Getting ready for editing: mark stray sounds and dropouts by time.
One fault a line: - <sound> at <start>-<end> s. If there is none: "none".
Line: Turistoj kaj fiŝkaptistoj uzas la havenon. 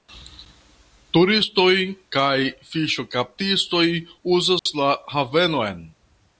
- dropout at 4.6-4.7 s